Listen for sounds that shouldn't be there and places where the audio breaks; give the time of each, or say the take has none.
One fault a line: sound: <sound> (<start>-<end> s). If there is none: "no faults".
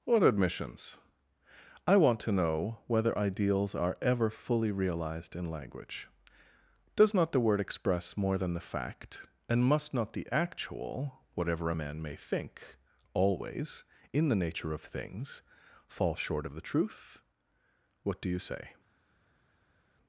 no faults